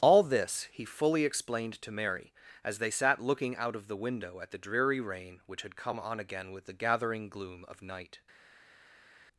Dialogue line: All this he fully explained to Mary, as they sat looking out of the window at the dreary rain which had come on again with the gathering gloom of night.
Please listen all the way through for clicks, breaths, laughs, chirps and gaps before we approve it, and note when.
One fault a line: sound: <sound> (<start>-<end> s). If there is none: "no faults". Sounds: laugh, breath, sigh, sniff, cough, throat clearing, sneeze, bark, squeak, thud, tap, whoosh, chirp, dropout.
no faults